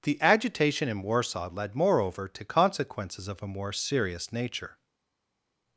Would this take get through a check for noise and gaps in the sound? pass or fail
pass